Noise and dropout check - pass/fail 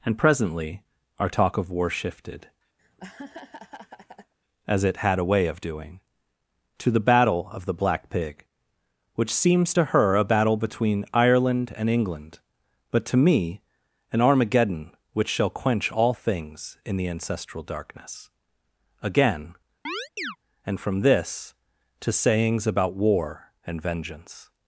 fail